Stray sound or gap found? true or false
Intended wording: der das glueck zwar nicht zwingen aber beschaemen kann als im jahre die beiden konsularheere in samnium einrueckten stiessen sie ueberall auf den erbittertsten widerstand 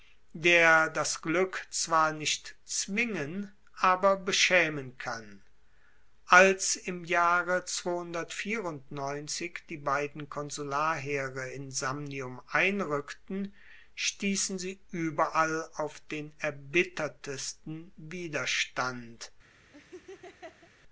true